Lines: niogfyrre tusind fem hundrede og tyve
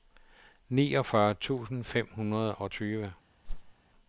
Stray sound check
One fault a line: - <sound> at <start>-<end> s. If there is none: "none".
- whoosh at 3.4-3.7 s